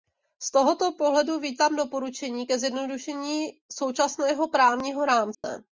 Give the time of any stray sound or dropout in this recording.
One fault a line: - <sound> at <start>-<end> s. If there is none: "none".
- dropout at 5.3-5.4 s